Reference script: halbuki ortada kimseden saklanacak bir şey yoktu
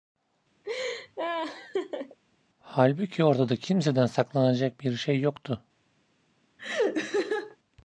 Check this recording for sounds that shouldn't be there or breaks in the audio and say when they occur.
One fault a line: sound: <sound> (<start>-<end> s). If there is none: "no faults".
sound: laugh (0.6-2.2 s)
sound: laugh (6.6-7.6 s)